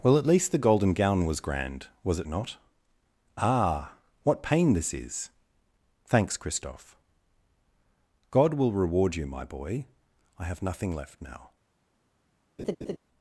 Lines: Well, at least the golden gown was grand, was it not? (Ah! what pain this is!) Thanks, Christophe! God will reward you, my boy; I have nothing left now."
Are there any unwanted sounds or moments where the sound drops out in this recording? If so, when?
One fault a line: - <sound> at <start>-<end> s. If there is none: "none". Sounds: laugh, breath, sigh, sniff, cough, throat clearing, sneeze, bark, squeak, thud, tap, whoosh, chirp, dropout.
- laugh at 12.6-13.0 s